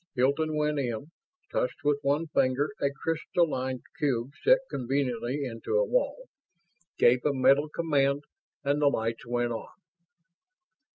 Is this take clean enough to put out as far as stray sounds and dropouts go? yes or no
yes